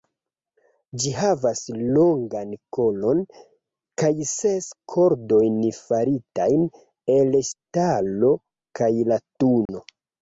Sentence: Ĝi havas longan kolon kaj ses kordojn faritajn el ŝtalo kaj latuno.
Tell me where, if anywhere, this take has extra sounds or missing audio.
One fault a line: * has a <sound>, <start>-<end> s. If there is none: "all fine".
* has a dropout, 9.7-9.7 s